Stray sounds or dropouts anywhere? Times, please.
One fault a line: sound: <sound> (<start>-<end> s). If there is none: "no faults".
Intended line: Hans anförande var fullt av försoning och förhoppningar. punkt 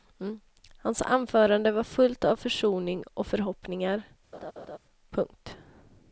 sound: laugh (4.3-4.8 s)